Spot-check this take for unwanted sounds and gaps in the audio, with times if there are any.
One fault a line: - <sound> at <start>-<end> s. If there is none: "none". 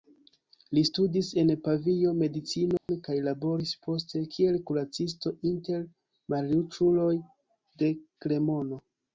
- dropout at 2.8-2.9 s